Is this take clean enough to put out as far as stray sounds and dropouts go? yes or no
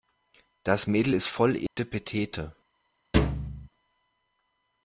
no